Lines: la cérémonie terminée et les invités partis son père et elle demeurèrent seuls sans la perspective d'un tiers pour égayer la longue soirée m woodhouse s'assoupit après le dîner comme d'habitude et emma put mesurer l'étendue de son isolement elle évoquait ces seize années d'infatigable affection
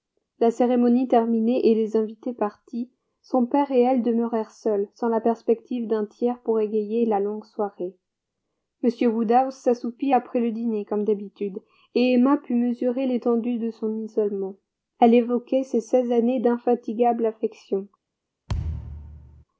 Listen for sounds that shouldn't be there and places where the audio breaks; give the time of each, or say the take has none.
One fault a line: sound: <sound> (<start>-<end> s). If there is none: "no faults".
sound: thud (18.5-19.4 s)